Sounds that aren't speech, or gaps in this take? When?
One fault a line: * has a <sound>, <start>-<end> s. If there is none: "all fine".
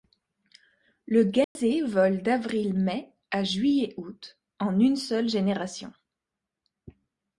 * has a dropout, 1.4-1.6 s